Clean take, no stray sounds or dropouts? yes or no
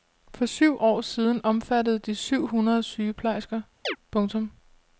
no